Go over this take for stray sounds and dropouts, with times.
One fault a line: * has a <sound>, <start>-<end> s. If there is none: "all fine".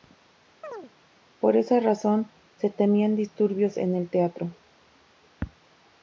* has a chirp, 0.6-0.9 s